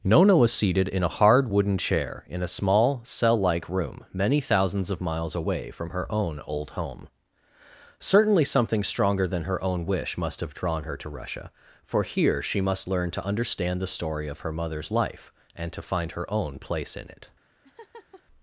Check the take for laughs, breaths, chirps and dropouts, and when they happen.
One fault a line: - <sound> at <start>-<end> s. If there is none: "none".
- laugh at 17.6-18.2 s